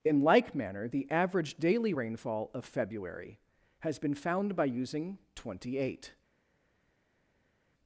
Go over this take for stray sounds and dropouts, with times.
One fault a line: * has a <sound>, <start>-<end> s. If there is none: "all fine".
all fine